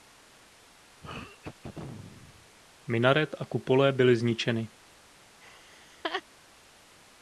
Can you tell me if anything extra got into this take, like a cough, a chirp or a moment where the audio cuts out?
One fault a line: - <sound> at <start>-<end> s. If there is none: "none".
- throat clearing at 1.0-2.6 s
- laugh at 5.4-6.2 s